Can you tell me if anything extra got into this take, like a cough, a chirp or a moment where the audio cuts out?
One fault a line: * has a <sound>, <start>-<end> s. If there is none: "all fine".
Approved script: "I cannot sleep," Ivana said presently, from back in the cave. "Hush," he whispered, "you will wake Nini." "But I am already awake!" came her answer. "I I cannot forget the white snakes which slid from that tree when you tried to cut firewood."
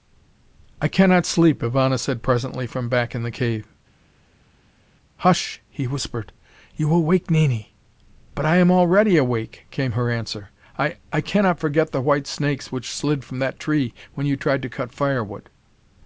all fine